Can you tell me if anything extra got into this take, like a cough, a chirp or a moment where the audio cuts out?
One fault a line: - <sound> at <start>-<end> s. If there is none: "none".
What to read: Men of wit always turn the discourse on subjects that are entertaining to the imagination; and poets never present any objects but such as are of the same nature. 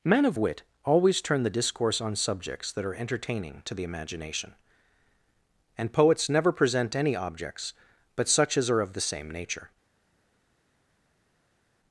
none